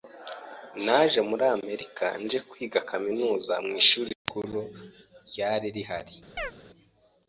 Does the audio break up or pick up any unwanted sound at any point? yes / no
yes